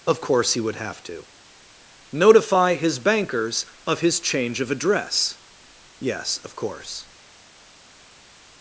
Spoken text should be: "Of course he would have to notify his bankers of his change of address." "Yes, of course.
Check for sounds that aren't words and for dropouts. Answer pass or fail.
pass